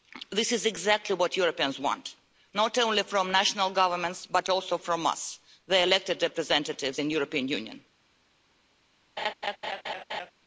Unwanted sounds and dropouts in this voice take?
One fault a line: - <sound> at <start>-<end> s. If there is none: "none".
- laugh at 9.2-10.3 s